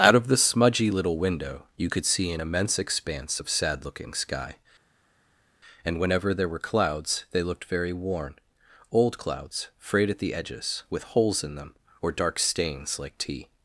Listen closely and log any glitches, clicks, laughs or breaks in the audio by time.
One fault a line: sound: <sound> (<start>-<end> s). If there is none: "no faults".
no faults